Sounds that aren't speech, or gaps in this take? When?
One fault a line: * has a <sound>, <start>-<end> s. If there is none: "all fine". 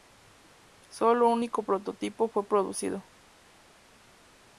all fine